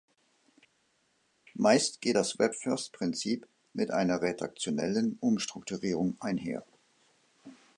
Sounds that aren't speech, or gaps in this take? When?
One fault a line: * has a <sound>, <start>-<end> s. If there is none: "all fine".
all fine